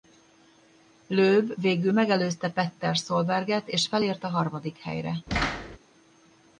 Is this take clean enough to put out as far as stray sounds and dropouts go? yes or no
no